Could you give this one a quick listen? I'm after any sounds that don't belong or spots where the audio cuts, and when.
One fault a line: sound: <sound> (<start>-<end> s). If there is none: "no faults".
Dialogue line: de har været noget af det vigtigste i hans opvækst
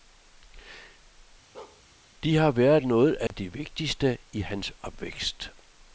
sound: bark (1.5-1.8 s)
sound: dropout (3.3-3.3 s)